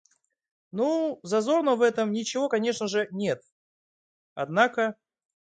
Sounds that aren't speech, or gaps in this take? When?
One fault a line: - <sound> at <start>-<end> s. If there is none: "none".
none